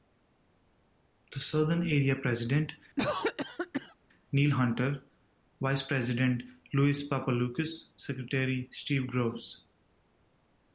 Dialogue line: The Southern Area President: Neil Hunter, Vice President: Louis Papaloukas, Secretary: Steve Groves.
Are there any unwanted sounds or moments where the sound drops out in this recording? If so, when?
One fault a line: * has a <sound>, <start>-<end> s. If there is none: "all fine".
* has a cough, 3.0-4.0 s